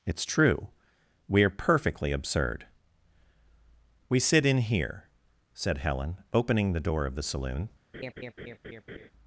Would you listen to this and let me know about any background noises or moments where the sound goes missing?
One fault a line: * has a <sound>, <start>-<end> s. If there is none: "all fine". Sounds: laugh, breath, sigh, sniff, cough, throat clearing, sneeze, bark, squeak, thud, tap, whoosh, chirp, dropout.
* has a laugh, 7.9-9.1 s